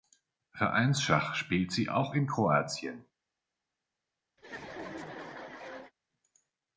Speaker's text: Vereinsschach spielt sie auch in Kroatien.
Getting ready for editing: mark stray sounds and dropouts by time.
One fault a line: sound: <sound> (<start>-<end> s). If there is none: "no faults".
sound: laugh (4.4-5.9 s)